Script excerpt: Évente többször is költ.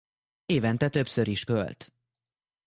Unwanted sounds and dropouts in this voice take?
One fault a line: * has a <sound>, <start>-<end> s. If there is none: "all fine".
all fine